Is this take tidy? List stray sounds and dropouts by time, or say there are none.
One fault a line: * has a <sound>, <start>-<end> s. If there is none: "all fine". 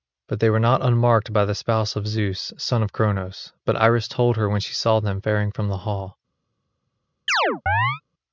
* has a chirp, 7.3-8.0 s